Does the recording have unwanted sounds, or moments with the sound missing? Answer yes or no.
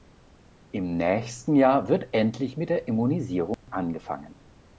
yes